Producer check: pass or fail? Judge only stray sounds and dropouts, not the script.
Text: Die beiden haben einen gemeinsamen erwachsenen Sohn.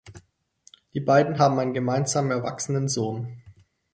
pass